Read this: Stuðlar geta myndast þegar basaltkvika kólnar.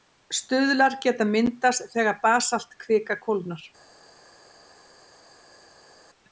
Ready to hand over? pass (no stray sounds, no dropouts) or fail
pass